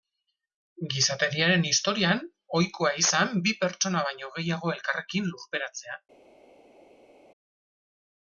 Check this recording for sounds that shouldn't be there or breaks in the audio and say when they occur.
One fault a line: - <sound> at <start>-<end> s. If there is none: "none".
none